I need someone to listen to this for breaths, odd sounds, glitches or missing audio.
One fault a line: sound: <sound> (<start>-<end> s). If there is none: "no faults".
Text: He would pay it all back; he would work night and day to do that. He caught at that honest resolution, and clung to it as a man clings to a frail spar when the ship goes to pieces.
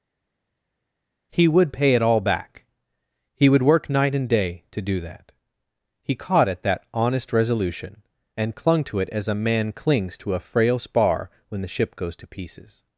no faults